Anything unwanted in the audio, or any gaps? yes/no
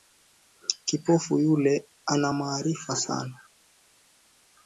no